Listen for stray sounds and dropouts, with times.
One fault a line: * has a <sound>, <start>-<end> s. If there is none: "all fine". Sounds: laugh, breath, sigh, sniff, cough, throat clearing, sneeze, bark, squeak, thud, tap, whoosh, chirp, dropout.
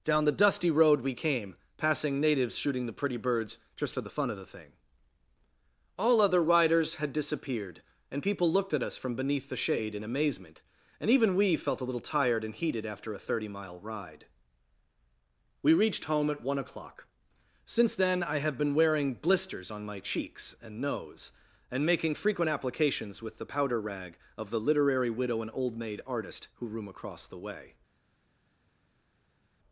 all fine